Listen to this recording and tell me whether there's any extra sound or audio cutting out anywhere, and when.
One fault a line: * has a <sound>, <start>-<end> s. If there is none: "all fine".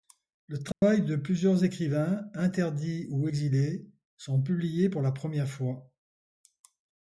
* has a dropout, 0.7-0.8 s